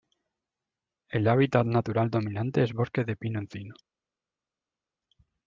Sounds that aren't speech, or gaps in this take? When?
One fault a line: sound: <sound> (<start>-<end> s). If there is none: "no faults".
no faults